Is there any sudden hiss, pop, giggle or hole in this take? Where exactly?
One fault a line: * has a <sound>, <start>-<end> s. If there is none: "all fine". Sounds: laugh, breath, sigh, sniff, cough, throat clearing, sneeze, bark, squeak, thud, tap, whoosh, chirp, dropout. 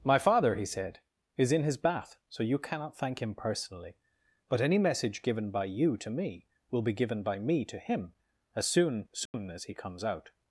* has a dropout, 9.3-9.3 s